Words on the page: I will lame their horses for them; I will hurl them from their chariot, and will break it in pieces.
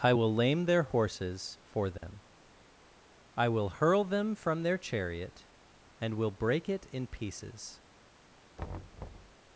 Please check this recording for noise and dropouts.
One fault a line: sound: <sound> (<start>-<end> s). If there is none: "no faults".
sound: dropout (2.0-2.0 s)
sound: thud (8.6-9.4 s)